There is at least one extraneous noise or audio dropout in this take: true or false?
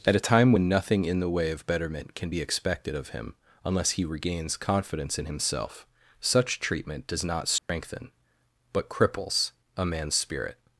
true